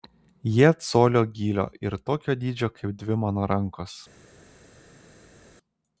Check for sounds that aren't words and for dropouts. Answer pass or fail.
pass